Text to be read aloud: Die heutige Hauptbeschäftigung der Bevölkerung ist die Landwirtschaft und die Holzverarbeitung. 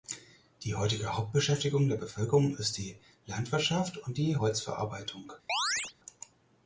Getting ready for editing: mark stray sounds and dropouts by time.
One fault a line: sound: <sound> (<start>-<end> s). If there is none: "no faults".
sound: chirp (5.5-5.9 s)